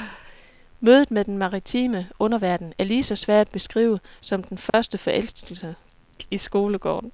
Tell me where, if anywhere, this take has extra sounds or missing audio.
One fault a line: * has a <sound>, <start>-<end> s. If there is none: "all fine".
* has a dropout, 4.7-4.7 s